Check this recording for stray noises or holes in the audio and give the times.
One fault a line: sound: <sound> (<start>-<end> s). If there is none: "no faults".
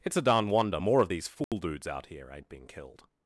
sound: dropout (1.4-1.5 s)